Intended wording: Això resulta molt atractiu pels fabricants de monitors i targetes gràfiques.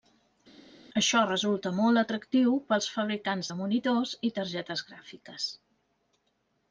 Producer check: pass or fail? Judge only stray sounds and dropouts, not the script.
pass